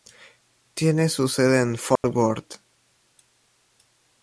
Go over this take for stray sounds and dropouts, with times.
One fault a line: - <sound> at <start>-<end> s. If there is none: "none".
- dropout at 2.0-2.0 s